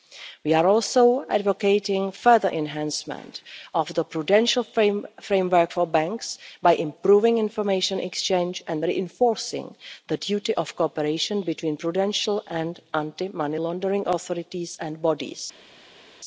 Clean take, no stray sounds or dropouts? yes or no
yes